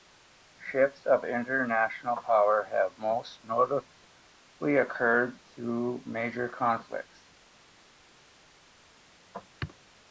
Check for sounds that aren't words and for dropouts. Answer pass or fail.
pass